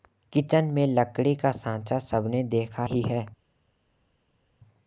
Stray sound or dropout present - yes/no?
no